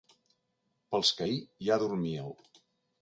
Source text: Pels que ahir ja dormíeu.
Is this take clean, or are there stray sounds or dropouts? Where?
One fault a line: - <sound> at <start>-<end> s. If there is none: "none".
none